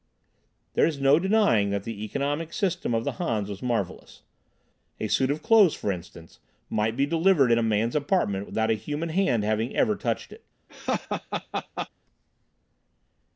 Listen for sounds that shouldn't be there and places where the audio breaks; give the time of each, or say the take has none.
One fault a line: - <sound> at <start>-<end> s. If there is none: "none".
- laugh at 10.7-11.9 s